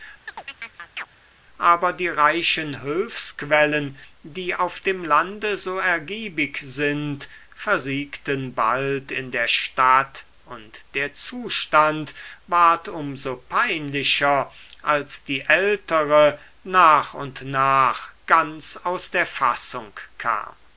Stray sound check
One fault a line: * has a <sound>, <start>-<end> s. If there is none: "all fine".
* has a chirp, 0.3-1.1 s